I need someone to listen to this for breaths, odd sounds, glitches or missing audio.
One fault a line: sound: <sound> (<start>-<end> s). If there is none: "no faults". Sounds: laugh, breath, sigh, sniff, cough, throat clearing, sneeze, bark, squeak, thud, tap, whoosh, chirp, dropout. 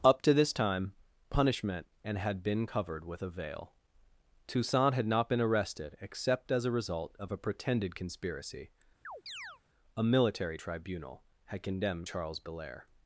sound: chirp (9.0-9.6 s)